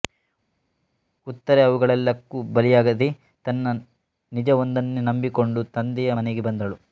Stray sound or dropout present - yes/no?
no